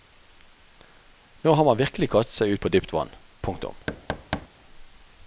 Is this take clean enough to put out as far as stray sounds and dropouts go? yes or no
no